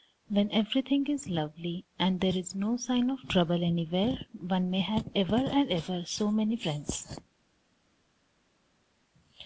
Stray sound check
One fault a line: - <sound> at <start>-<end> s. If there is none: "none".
none